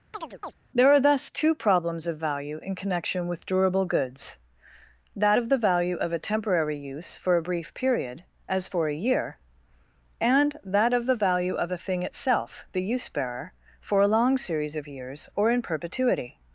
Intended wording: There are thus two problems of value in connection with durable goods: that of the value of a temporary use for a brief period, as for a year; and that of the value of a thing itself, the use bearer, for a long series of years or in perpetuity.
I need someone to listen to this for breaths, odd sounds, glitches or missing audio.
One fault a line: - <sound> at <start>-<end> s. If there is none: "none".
- chirp at 0.1-0.5 s